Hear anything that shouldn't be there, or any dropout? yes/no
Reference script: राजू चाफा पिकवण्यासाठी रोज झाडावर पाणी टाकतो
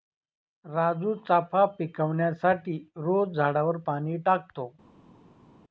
no